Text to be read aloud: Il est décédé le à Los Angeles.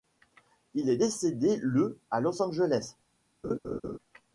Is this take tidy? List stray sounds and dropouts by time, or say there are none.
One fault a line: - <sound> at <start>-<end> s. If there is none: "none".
- laugh at 3.4-4.0 s